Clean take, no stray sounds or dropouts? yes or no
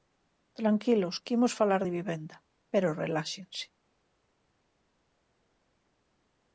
yes